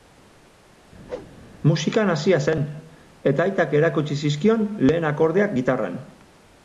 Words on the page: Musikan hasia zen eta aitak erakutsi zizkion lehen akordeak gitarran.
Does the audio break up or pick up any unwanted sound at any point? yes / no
yes